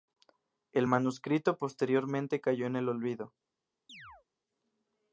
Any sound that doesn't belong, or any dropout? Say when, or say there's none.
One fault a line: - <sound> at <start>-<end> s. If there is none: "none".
- chirp at 3.9-4.3 s